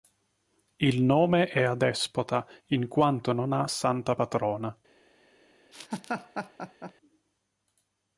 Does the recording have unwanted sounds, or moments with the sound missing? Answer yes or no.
yes